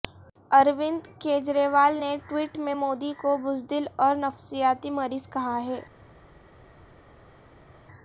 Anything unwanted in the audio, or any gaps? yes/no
no